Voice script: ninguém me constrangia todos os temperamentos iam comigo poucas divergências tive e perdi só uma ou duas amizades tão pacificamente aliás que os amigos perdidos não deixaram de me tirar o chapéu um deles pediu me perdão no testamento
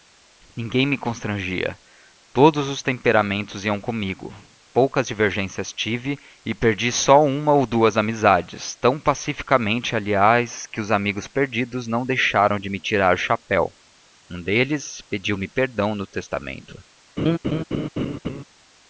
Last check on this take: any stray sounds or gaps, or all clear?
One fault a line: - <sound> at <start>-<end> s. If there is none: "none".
- laugh at 17.2-18.4 s